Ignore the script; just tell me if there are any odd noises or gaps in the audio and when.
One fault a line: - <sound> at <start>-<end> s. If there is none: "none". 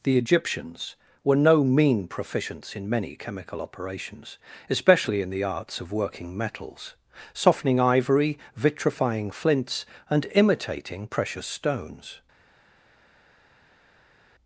none